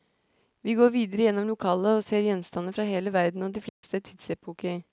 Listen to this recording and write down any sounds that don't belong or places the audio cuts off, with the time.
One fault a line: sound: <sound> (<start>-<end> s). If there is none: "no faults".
sound: dropout (3.7-3.8 s)